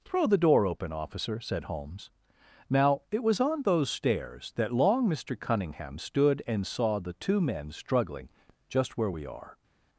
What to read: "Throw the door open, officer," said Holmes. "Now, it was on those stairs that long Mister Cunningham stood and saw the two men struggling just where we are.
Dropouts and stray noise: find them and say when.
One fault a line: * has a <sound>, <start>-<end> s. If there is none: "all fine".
all fine